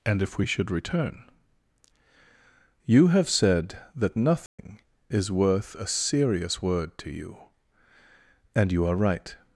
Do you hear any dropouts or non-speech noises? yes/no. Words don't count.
yes